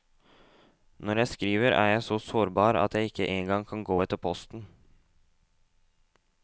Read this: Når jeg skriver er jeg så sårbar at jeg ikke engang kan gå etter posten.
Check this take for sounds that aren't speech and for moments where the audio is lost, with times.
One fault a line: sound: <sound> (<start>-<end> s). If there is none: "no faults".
no faults